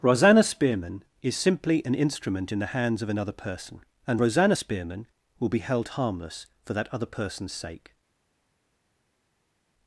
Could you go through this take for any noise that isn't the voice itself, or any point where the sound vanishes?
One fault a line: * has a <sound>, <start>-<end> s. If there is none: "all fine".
all fine